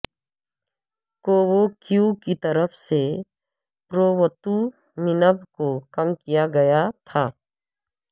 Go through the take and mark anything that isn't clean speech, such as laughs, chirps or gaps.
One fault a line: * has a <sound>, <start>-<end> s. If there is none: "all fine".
all fine